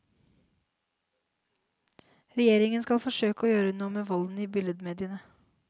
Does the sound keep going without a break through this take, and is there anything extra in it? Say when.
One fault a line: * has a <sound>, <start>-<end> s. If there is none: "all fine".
all fine